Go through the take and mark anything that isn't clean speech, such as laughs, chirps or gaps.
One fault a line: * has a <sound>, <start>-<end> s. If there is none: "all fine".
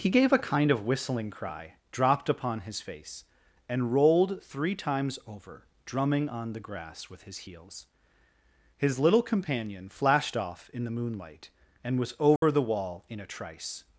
* has a dropout, 12.4-12.4 s